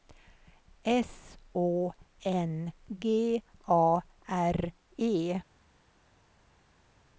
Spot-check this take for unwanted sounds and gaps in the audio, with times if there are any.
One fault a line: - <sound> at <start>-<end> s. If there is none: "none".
none